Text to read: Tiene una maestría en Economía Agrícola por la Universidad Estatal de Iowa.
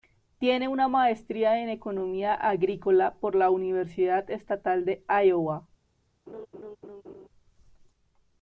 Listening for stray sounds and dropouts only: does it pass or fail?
fail